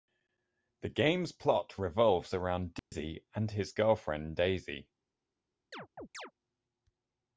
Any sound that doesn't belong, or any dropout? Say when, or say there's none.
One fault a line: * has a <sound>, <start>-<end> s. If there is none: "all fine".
* has a dropout, 2.8-2.9 s
* has a chirp, 5.7-6.3 s